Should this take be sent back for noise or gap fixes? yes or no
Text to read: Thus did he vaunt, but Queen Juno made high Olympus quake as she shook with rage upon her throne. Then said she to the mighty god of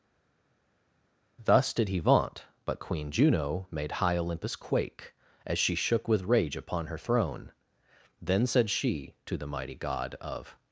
no